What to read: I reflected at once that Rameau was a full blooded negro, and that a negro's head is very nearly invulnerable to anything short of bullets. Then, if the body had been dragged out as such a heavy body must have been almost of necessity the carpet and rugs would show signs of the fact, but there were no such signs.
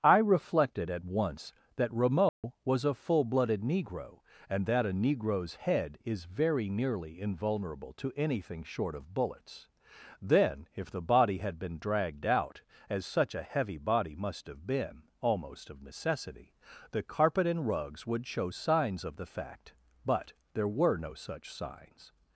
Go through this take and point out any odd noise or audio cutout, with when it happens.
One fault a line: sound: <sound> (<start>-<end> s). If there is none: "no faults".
sound: dropout (2.3-2.4 s)